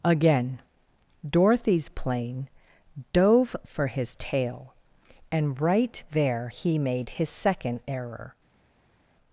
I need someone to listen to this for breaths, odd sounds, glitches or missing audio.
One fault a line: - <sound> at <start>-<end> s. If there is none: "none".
none